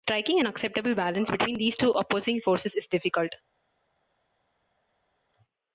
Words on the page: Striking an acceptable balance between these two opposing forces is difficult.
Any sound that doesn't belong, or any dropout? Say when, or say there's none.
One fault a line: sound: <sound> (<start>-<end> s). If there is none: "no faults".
no faults